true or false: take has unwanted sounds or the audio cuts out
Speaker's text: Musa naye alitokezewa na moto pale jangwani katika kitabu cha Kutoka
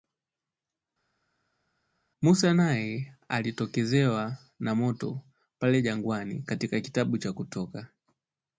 false